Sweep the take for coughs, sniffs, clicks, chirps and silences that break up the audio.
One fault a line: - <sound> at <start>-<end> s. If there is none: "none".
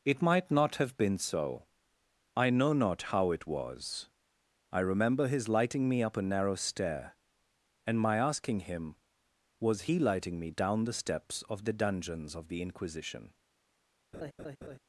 - laugh at 14.1-14.8 s